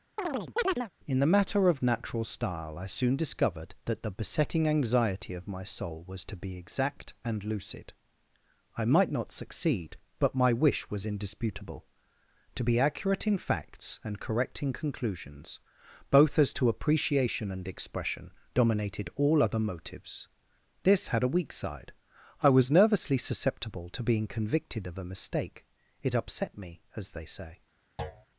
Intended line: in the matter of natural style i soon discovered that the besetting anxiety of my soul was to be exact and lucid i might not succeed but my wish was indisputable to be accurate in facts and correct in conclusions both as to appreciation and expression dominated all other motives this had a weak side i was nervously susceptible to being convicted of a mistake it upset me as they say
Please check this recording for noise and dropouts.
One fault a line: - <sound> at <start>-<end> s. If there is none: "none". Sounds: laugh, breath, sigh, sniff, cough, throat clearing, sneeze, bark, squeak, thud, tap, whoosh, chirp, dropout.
- chirp at 0.2-0.9 s
- thud at 28.0-28.3 s